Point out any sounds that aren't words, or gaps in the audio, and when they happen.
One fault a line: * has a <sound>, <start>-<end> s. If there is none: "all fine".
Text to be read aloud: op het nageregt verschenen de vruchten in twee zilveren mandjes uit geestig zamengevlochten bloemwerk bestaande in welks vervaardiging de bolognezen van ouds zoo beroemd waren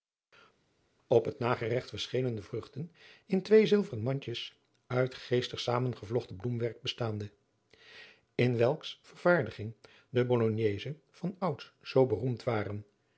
all fine